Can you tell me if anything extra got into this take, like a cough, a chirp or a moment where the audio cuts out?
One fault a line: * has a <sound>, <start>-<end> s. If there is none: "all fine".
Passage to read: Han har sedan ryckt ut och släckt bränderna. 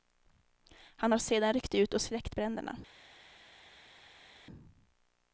all fine